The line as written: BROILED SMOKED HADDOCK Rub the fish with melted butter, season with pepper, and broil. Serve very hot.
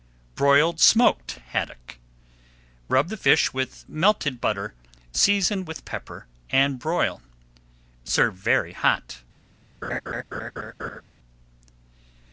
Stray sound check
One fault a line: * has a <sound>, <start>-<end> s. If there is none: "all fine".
* has a laugh, 9.8-11.0 s